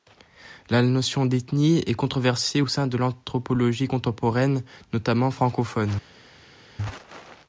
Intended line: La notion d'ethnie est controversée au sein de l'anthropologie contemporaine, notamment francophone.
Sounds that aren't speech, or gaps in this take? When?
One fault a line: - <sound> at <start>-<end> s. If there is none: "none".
none